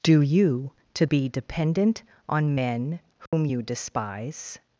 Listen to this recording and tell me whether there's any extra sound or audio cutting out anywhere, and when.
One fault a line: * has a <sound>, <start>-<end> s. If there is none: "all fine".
* has a dropout, 3.3-3.3 s